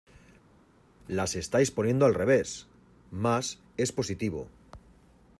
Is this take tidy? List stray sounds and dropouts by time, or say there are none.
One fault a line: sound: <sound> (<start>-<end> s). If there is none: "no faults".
no faults